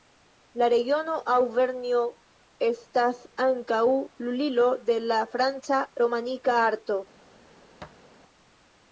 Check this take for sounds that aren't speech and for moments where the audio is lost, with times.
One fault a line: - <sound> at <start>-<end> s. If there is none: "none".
- thud at 7.8-8.1 s